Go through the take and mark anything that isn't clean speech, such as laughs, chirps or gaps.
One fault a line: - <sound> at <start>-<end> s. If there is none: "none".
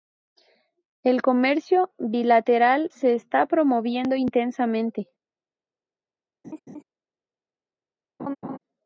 - laugh at 6.4-6.8 s
- laugh at 8.2-8.6 s